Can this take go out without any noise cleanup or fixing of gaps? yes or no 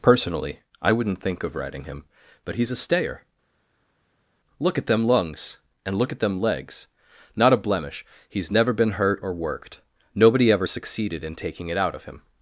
yes